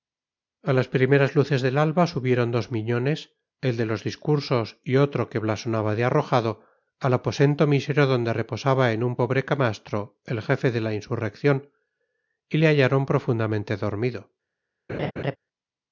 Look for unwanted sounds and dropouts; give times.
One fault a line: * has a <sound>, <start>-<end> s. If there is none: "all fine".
* has a laugh, 14.9-15.4 s